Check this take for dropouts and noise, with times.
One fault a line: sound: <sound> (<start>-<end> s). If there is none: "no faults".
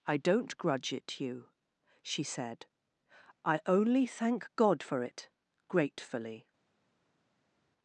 no faults